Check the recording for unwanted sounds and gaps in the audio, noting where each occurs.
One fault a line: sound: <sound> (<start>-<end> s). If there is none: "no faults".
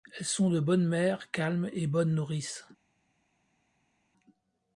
no faults